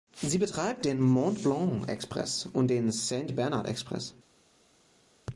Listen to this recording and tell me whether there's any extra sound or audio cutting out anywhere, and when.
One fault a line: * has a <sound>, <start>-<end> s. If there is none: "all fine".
all fine